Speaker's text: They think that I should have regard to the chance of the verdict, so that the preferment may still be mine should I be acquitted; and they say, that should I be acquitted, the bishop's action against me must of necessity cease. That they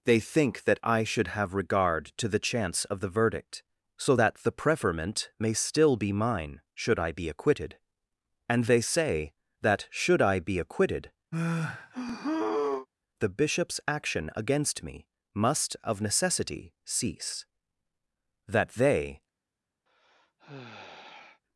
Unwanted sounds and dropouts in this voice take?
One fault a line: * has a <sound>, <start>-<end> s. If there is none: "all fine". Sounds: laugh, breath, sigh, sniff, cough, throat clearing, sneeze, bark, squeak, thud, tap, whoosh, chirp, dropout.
* has a sigh, 11.3-12.9 s
* has a sigh, 19.9-21.4 s